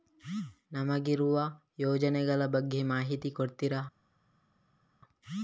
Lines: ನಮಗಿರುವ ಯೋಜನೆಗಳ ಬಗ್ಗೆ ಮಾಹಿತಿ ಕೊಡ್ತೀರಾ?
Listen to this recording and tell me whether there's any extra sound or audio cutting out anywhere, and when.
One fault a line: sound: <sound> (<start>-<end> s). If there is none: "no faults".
no faults